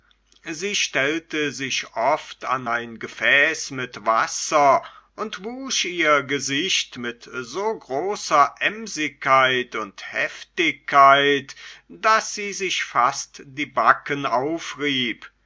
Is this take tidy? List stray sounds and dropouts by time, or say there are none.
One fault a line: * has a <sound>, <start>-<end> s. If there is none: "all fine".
all fine